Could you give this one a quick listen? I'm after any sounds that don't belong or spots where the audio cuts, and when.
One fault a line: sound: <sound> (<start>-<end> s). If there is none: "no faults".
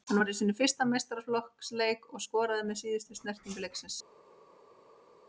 no faults